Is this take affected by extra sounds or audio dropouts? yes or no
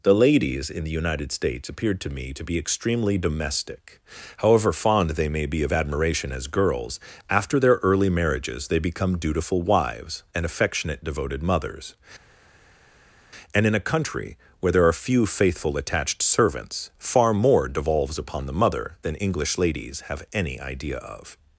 no